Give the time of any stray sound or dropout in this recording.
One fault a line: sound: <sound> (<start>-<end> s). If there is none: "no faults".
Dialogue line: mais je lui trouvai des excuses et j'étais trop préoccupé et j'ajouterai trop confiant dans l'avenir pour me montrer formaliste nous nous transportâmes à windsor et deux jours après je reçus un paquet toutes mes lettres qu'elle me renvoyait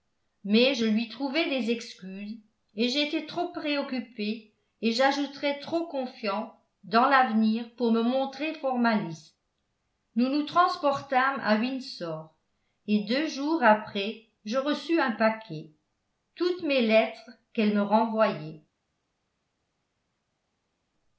no faults